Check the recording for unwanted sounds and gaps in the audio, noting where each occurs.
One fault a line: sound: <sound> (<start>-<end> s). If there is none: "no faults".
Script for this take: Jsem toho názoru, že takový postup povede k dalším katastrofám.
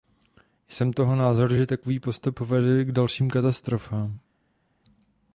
no faults